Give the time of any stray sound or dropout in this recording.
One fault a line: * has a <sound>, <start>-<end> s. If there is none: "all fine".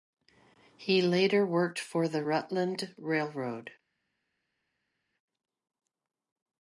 all fine